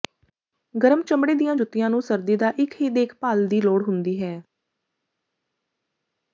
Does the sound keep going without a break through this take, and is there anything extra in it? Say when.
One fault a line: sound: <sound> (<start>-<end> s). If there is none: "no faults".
no faults